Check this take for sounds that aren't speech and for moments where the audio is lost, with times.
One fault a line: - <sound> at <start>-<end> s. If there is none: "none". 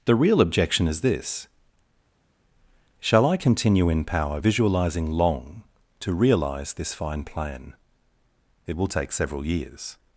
none